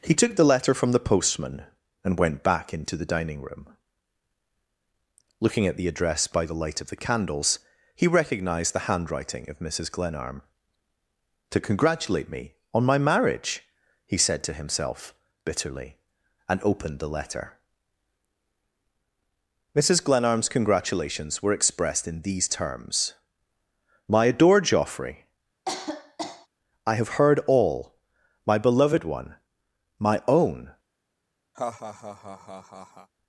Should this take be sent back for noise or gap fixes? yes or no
yes